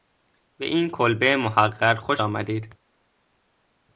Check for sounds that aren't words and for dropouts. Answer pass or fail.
pass